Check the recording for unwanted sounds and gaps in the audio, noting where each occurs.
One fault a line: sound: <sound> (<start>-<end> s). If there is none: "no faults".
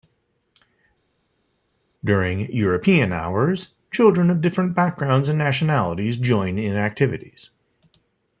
no faults